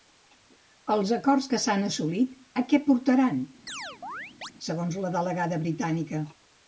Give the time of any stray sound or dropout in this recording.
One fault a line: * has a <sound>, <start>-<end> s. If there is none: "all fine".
* has a chirp, 3.7-4.5 s